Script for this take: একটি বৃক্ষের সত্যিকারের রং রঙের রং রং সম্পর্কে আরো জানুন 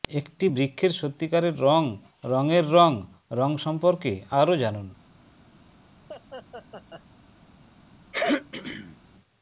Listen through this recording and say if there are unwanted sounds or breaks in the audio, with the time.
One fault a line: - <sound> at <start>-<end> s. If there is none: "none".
- laugh at 6.1-7.0 s
- throat clearing at 8.1-9.0 s